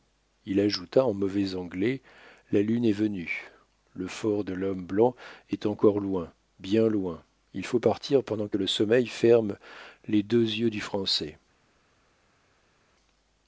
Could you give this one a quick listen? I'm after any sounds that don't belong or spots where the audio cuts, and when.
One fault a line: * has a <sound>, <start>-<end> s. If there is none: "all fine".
all fine